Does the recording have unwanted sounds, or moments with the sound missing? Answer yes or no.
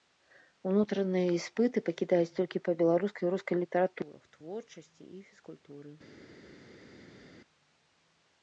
no